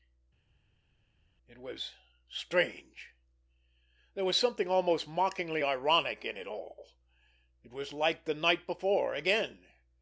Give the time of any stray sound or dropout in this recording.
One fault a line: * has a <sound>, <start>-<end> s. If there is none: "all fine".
all fine